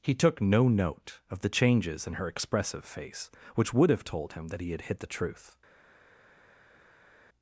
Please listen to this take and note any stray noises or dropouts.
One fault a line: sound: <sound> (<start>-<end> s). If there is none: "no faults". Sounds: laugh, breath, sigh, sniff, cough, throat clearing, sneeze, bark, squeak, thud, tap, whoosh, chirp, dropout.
no faults